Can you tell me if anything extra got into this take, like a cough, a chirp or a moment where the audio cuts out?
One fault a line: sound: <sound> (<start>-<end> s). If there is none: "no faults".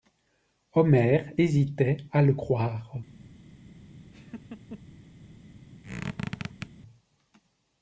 sound: laugh (4.1-4.8 s)
sound: squeak (5.8-6.7 s)